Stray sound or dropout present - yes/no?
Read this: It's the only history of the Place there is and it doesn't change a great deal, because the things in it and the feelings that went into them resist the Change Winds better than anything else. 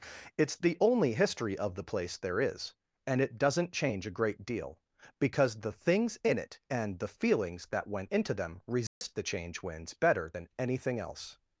yes